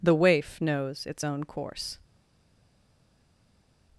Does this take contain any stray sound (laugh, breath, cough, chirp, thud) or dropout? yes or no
no